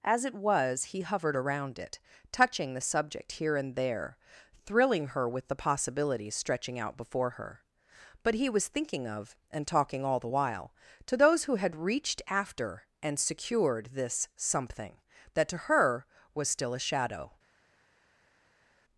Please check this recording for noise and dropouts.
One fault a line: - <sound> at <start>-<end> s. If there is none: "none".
none